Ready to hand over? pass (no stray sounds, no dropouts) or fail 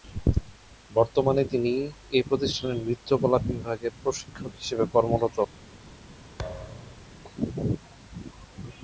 fail